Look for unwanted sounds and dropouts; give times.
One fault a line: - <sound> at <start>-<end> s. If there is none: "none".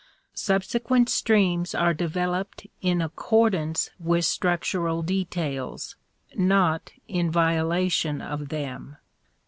none